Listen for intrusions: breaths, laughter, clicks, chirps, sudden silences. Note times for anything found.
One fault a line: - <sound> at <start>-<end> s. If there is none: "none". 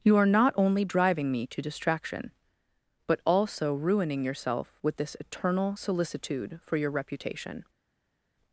none